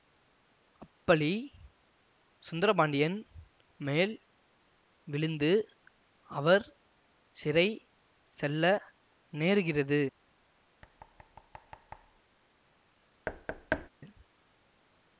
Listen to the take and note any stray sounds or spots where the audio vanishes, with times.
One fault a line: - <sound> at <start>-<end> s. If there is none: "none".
- thud at 10.8-12.2 s
- thud at 13.3-13.9 s